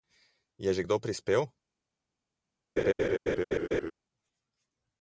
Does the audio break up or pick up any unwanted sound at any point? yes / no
yes